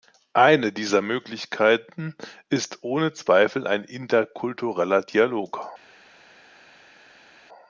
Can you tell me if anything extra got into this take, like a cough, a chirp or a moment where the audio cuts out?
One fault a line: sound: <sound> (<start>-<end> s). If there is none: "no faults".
no faults